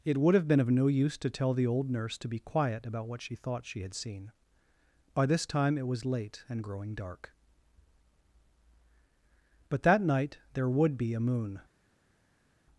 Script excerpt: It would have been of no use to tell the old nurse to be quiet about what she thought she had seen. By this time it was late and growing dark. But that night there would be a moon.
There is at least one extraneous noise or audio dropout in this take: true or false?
false